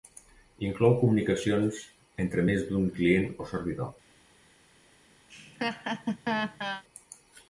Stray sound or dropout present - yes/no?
yes